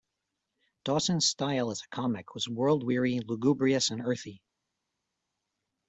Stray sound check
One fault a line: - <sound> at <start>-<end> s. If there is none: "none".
none